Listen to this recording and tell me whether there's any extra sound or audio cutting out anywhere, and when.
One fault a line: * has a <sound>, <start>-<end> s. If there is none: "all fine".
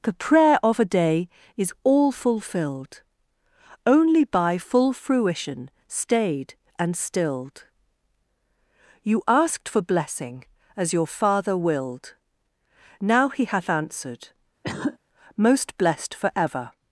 * has a cough, 14.6-15.0 s